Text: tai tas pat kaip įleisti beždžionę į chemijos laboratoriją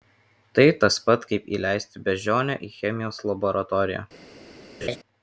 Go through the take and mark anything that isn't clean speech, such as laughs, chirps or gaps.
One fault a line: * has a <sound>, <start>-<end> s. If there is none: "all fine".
* has a laugh, 4.8-5.0 s